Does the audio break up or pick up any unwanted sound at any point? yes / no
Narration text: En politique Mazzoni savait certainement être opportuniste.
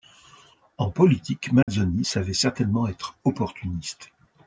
yes